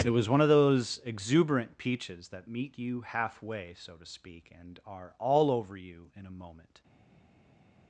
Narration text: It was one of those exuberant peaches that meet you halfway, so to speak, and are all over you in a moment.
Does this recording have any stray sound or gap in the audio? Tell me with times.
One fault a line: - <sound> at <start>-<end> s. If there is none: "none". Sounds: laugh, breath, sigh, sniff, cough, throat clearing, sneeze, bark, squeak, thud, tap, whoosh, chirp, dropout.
none